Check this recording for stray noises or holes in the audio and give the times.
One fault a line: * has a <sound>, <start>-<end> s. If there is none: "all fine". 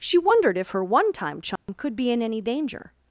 * has a dropout, 1.6-1.7 s